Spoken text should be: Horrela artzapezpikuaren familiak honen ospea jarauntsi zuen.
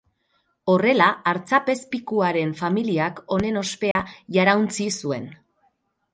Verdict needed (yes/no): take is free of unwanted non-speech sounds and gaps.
no